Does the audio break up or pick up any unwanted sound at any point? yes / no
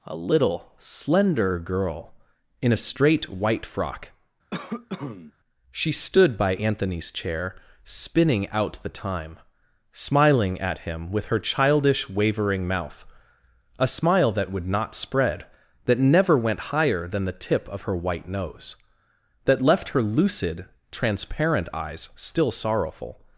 yes